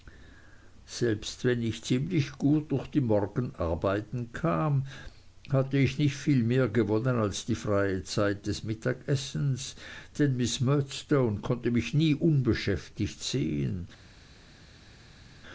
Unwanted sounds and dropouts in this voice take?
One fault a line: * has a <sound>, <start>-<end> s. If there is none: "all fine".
all fine